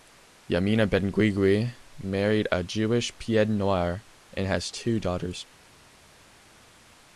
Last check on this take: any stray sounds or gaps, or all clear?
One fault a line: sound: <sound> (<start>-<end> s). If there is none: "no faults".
no faults